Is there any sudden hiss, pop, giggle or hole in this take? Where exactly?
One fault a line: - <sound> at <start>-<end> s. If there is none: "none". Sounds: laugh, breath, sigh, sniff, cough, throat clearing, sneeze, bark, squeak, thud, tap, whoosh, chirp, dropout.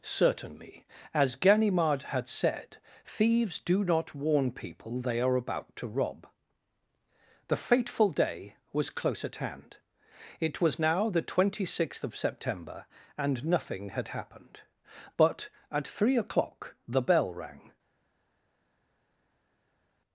none